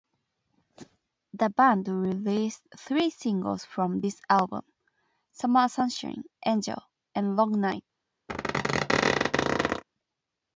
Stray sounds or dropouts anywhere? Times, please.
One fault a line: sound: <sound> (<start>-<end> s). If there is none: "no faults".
sound: squeak (8.3-9.8 s)